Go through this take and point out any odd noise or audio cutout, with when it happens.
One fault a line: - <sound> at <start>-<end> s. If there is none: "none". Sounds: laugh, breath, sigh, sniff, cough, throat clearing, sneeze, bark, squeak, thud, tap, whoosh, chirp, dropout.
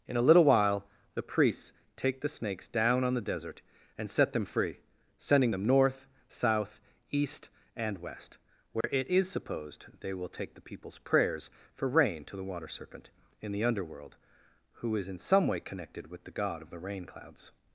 - dropout at 8.8-8.8 s